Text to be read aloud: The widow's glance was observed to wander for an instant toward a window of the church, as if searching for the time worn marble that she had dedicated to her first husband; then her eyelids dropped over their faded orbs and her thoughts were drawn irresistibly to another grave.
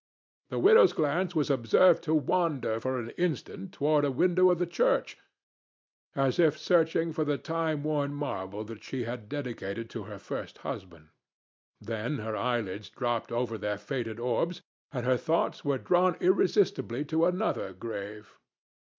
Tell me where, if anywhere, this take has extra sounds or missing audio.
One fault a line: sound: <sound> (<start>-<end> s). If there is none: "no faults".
no faults